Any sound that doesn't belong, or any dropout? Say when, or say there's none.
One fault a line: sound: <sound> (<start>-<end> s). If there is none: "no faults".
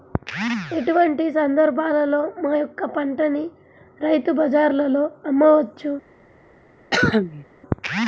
sound: cough (6.9-7.5 s)